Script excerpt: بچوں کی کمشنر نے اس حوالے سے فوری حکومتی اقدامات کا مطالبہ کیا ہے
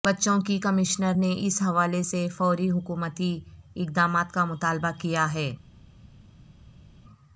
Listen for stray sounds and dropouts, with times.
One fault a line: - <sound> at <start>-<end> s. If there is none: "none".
none